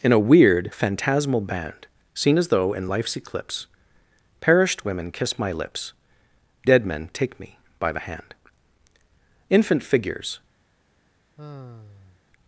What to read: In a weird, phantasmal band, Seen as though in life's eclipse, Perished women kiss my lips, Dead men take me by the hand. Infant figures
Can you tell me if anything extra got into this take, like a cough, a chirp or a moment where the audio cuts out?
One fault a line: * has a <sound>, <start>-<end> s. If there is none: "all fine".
* has a sigh, 11.4-12.2 s